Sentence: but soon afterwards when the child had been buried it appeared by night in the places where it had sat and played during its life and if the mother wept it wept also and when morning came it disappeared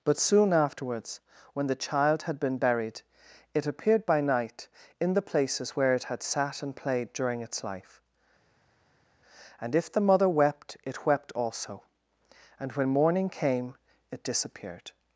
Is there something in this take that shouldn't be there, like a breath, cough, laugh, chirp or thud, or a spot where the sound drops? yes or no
no